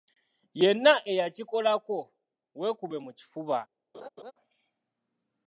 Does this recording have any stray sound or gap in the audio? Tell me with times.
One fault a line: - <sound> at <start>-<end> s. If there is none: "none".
- laugh at 3.9-4.3 s